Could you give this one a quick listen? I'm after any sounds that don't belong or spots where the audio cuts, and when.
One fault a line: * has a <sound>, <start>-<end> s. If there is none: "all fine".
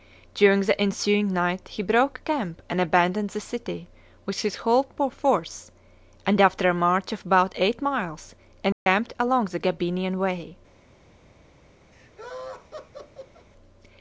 * has a dropout, 8.7-8.9 s
* has a laugh, 11.9-13.5 s